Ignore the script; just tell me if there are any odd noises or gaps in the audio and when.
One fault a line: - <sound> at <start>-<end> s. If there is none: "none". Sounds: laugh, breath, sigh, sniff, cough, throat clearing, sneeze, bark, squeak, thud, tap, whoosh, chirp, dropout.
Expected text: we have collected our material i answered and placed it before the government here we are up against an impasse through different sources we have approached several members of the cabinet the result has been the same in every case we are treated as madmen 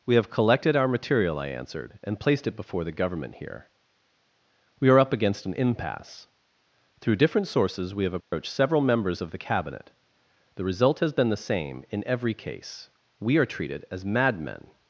- dropout at 8.2-8.3 s